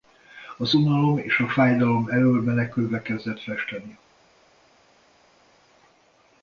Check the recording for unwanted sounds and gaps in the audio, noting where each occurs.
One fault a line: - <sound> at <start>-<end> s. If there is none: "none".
none